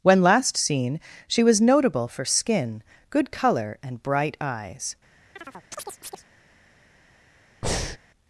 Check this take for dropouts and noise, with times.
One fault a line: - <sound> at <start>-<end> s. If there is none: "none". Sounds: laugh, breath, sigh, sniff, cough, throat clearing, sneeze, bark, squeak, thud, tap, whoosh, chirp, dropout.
- chirp at 5.4-6.2 s
- breath at 7.6-8.0 s